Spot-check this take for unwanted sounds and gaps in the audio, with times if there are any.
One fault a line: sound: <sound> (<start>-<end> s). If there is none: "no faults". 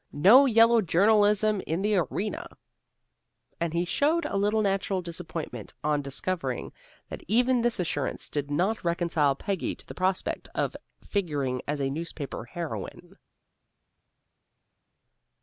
no faults